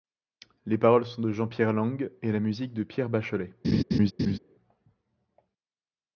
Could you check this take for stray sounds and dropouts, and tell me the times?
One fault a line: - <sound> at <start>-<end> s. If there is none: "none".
- laugh at 3.6-4.4 s